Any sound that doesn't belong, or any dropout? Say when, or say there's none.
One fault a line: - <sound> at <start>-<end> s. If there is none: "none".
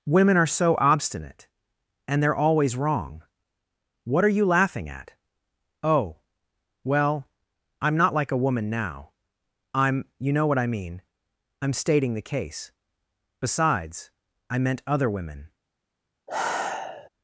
- sigh at 16.3-17.1 s